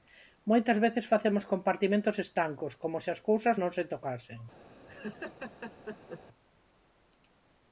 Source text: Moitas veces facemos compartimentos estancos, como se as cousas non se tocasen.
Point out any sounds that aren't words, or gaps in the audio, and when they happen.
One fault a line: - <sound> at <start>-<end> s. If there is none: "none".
- laugh at 4.9-6.2 s